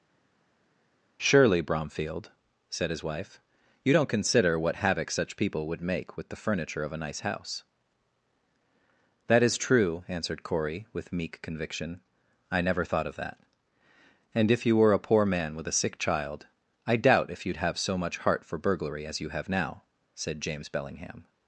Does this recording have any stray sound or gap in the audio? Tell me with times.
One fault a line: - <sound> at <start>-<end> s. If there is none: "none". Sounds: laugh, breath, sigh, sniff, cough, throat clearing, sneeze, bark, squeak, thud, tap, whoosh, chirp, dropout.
none